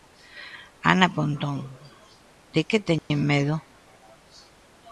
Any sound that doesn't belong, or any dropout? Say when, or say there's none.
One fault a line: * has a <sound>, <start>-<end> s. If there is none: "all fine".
* has a dropout, 3.0-3.1 s